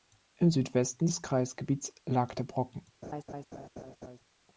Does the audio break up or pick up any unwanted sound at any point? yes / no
yes